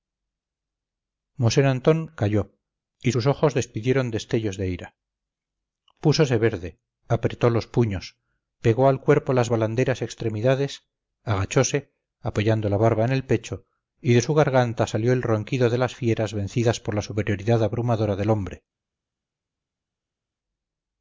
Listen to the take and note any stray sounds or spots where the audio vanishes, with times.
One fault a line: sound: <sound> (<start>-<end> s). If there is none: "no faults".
no faults